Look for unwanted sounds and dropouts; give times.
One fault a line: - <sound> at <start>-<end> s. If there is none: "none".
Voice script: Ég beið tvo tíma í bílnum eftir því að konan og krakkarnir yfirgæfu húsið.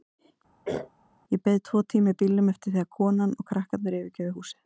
- throat clearing at 0.6-0.9 s